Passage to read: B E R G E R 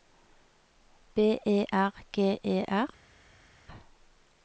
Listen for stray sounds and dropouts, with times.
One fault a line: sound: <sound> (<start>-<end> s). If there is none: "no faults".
no faults